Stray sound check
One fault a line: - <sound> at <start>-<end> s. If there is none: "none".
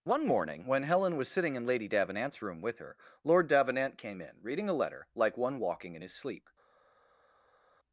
none